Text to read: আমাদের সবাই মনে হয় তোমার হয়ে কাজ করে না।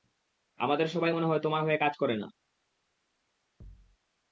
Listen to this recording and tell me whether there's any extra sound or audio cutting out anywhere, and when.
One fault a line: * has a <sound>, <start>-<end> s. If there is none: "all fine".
* has a thud, 3.6-4.0 s